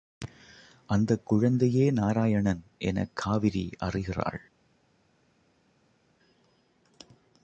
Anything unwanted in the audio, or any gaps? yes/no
no